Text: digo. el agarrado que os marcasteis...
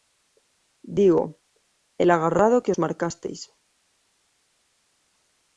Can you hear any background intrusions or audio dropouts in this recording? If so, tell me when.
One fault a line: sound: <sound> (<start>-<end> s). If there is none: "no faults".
no faults